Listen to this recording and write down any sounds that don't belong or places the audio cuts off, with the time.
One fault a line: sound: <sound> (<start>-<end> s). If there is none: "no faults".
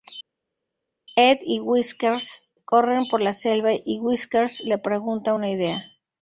no faults